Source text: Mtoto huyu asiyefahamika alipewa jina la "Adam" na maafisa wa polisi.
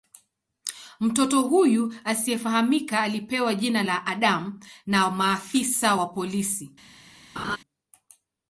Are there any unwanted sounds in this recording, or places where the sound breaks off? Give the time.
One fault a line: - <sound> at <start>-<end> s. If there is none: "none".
- laugh at 7.4-7.6 s